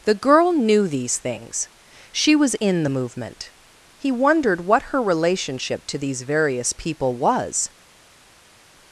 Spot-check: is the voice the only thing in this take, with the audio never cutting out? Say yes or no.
yes